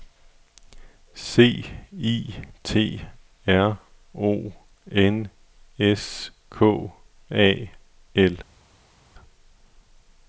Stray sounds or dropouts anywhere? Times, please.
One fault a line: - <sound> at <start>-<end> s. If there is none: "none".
none